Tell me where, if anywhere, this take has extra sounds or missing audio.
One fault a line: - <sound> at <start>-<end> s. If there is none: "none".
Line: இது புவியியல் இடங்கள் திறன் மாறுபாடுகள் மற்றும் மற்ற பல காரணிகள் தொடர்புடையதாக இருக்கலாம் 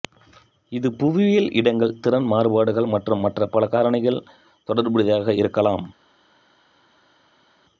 none